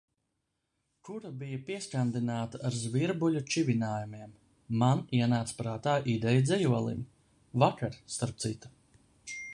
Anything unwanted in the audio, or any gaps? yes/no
no